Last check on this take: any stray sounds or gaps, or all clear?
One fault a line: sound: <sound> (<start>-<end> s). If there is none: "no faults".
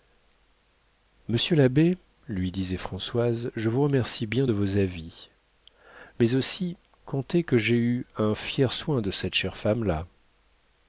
no faults